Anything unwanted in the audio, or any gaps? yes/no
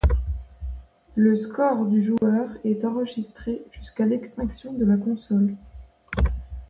yes